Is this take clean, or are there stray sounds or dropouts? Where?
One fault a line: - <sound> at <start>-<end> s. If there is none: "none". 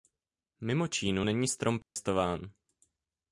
- dropout at 1.8-2.0 s